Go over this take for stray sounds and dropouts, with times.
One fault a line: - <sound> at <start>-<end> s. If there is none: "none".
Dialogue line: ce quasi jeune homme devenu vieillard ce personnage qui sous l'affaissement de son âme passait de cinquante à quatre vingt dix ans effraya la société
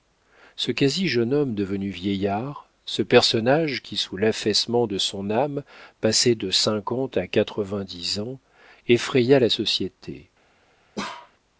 - bark at 11.0-11.3 s